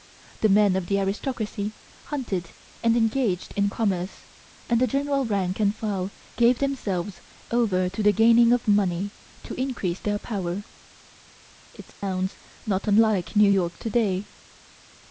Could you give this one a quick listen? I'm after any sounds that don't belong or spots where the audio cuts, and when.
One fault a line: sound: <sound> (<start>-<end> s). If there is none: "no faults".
sound: dropout (11.9-12.0 s)